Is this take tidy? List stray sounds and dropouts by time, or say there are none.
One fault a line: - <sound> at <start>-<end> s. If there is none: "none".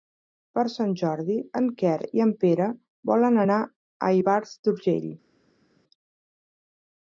none